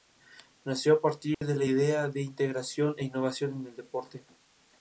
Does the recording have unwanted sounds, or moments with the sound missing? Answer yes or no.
yes